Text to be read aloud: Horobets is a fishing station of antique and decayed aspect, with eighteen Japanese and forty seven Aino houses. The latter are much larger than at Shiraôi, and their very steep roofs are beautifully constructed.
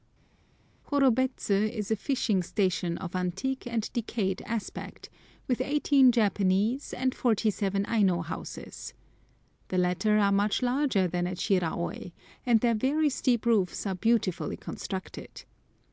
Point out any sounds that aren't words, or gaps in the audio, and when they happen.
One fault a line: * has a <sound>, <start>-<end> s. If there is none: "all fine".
all fine